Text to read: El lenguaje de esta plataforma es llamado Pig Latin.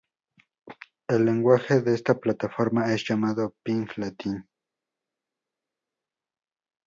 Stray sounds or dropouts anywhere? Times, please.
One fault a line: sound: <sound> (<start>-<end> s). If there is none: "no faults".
no faults